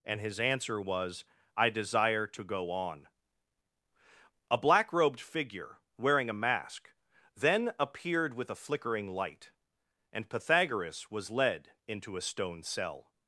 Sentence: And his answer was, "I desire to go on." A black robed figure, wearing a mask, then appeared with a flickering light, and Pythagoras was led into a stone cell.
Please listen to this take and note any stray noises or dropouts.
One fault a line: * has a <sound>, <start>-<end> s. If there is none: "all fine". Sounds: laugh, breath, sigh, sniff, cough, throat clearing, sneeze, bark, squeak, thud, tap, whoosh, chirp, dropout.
all fine